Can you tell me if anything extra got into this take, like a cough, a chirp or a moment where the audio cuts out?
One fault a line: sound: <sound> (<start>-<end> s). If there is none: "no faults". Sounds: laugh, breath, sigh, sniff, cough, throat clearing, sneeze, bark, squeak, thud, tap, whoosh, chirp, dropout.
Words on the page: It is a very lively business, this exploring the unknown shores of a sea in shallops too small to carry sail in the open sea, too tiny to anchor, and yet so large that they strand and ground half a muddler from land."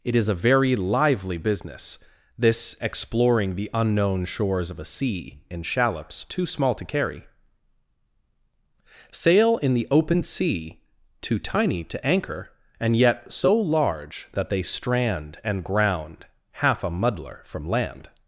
no faults